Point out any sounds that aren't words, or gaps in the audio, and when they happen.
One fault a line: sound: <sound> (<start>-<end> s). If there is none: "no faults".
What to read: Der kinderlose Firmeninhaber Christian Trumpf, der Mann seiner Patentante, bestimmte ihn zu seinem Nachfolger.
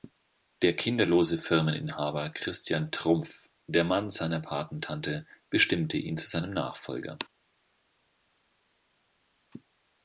no faults